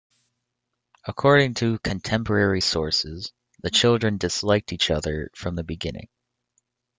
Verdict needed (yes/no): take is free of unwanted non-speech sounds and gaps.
yes